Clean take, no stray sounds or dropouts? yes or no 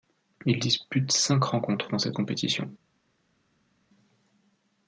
yes